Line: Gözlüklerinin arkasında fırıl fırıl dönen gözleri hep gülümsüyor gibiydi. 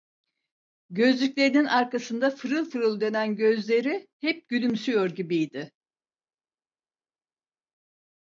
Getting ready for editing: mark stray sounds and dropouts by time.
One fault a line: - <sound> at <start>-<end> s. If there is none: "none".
none